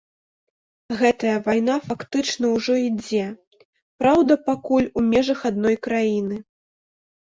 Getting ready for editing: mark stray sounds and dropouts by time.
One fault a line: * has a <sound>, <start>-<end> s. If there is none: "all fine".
all fine